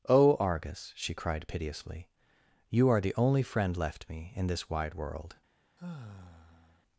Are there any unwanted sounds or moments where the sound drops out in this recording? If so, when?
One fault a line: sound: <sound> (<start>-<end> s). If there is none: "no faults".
sound: sigh (5.8-6.8 s)